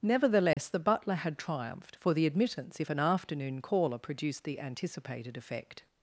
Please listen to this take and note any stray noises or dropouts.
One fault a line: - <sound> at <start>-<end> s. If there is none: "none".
- dropout at 0.5-0.6 s